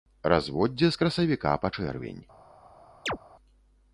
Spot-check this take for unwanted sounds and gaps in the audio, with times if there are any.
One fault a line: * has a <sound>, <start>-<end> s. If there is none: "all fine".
* has a chirp, 3.1-3.2 s